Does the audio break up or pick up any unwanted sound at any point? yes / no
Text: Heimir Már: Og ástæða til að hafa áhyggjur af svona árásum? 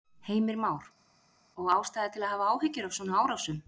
no